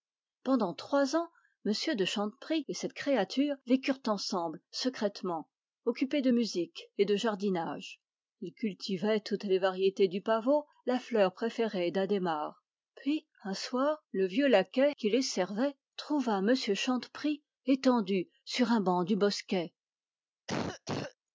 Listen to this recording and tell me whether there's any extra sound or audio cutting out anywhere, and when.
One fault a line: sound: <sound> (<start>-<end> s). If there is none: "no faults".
sound: cough (20.5-21.2 s)